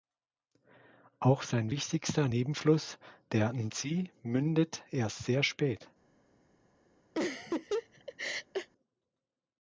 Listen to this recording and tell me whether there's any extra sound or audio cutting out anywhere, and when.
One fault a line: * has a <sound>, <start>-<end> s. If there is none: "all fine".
* has a laugh, 7.1-8.7 s